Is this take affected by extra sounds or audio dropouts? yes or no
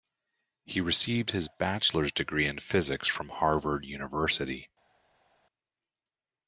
no